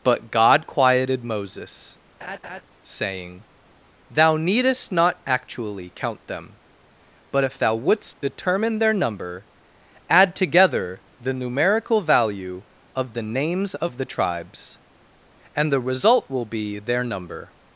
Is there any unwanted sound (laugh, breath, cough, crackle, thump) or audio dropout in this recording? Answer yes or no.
yes